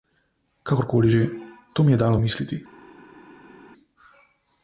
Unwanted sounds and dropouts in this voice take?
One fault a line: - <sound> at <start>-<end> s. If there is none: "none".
none